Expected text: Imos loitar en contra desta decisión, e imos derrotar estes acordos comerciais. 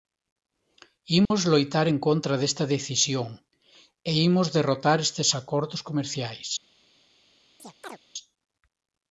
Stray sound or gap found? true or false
true